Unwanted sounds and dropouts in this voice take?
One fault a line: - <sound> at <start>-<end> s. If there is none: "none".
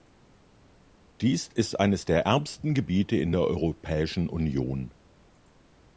none